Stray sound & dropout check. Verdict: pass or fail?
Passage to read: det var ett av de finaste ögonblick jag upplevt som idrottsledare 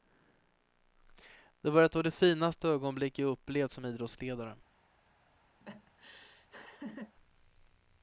fail